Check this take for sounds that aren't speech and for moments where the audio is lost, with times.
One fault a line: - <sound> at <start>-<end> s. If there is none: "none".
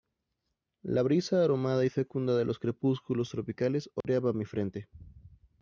- dropout at 4.0-4.0 s